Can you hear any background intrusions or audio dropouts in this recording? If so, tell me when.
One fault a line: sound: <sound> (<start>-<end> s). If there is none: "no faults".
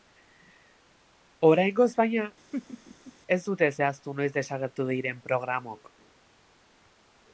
sound: laugh (2.5-3.1 s)